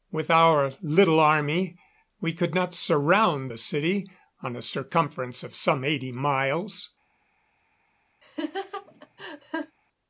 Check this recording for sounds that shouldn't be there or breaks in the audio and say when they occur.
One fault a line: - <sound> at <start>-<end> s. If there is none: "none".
- laugh at 8.2-9.8 s